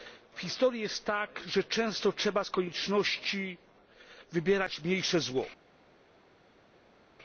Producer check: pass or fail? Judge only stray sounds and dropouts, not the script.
pass